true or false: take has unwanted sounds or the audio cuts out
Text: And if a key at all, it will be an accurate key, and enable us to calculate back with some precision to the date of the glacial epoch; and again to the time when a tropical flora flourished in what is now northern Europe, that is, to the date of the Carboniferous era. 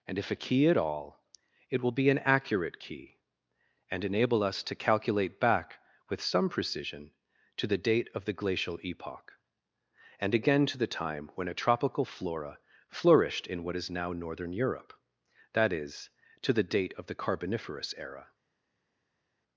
false